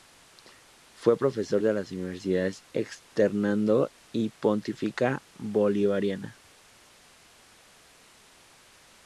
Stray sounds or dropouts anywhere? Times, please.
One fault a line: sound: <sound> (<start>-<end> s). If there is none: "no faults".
no faults